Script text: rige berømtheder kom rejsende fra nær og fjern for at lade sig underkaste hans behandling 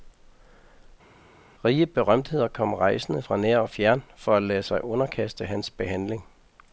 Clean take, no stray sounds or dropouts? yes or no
yes